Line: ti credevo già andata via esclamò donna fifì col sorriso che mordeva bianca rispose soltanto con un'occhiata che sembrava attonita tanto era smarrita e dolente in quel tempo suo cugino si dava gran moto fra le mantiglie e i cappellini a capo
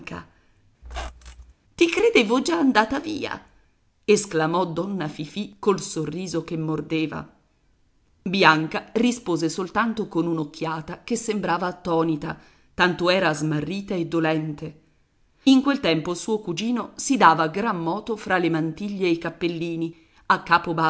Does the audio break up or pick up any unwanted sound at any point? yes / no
yes